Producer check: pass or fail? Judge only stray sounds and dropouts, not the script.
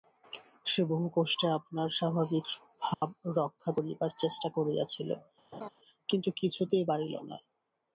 fail